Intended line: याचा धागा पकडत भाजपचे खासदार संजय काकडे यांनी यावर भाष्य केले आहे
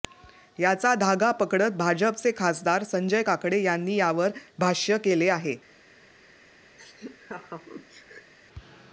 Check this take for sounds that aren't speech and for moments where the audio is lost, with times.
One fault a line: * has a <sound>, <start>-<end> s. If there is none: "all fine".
* has a laugh, 6.8-8.3 s